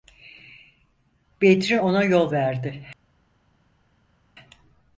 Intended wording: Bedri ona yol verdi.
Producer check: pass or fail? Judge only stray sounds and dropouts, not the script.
pass